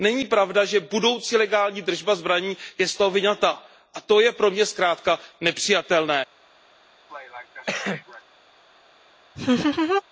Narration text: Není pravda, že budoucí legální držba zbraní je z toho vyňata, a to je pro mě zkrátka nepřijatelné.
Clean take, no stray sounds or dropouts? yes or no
no